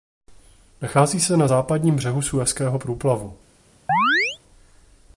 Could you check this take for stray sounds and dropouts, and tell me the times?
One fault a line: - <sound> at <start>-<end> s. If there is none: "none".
- chirp at 3.9-4.4 s